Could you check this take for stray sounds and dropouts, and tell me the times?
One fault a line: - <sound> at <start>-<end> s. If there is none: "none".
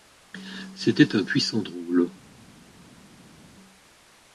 none